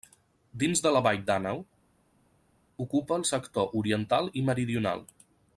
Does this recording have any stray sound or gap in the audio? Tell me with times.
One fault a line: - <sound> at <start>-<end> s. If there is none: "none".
none